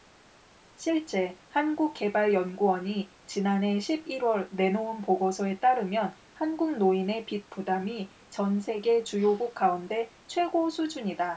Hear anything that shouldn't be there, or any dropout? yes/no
no